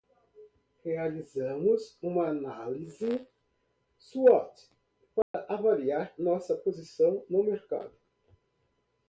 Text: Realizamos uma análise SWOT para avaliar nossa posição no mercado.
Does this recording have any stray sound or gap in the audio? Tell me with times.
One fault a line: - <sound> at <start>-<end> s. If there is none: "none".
- dropout at 5.2-5.3 s